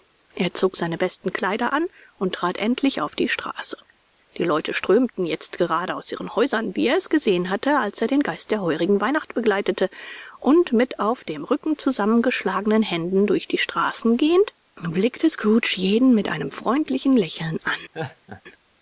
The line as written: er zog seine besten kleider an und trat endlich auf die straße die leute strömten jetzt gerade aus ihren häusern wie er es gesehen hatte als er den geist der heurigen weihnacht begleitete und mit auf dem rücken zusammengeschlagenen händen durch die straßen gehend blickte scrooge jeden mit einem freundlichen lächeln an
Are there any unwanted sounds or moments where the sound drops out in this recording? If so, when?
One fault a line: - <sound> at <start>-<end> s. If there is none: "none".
- laugh at 17.9-18.4 s